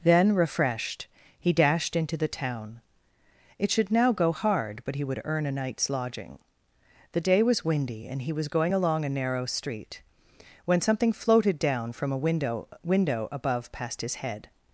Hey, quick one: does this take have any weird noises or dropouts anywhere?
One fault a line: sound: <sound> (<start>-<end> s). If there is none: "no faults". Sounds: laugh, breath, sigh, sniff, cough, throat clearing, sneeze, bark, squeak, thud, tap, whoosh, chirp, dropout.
no faults